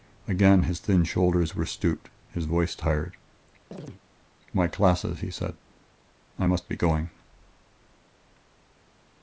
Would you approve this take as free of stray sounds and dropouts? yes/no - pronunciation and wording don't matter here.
no